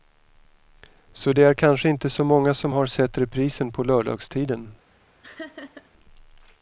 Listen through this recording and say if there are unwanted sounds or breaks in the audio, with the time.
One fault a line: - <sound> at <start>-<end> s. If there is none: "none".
- laugh at 5.2-5.9 s